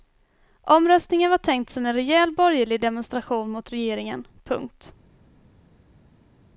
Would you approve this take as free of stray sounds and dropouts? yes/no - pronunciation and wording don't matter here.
yes